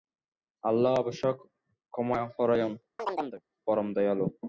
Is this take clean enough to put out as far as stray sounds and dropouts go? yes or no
no